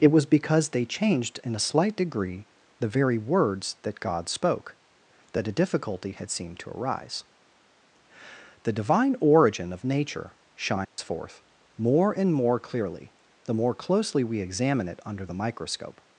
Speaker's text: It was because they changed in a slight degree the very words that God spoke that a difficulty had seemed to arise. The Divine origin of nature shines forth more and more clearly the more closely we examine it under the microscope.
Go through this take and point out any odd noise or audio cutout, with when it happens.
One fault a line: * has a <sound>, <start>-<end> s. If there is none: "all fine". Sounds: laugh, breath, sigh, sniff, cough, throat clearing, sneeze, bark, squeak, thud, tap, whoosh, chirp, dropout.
* has a dropout, 10.8-11.0 s